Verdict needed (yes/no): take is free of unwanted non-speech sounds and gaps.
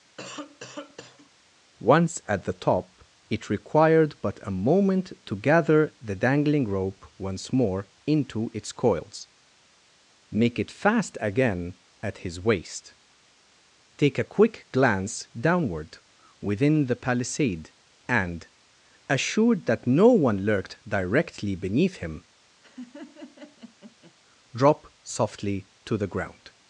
no